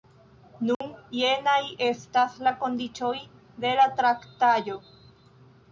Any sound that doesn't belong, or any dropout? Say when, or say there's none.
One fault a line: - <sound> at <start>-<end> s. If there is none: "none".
- dropout at 0.7-0.8 s